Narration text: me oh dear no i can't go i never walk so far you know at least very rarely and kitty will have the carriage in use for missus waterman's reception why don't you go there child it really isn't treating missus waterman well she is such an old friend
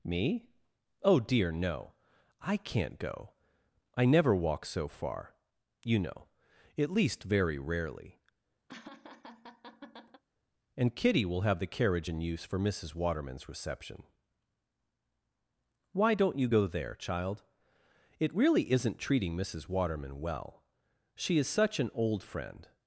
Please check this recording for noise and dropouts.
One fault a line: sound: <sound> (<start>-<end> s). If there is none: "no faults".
sound: laugh (8.7-10.2 s)